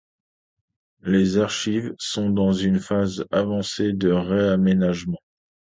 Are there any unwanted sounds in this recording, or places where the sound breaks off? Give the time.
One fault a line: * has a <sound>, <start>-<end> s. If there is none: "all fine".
all fine